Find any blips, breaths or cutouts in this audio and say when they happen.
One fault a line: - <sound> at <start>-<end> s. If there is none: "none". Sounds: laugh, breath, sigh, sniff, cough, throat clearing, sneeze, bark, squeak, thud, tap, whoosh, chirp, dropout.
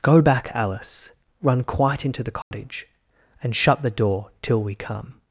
- dropout at 2.4-2.5 s